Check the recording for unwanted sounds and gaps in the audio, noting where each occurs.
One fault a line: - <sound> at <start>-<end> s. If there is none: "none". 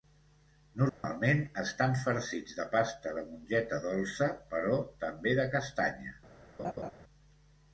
- dropout at 0.9-1.0 s
- laugh at 6.6-6.9 s